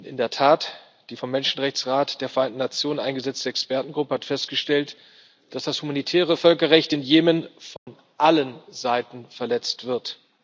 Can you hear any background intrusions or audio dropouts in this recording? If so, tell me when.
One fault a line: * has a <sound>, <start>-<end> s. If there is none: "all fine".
* has a dropout, 7.8-7.9 s